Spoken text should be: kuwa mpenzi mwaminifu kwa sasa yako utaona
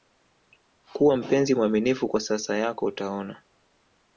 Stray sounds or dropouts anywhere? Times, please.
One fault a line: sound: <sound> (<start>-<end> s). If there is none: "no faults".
no faults